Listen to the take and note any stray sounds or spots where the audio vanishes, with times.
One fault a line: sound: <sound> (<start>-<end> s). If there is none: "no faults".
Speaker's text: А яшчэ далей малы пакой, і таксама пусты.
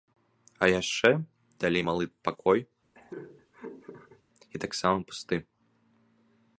sound: laugh (2.9-4.2 s)